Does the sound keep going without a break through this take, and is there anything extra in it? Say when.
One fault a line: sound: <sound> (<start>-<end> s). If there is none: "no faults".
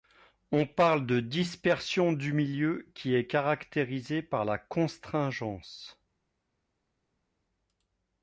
no faults